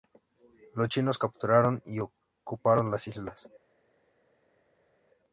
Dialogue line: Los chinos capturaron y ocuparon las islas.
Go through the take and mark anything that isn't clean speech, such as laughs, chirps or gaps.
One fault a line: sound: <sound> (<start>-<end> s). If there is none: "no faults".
no faults